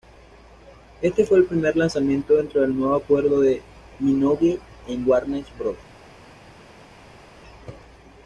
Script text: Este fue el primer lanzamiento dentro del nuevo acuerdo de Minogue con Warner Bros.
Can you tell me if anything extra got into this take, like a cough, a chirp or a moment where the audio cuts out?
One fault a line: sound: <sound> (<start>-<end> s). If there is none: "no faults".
no faults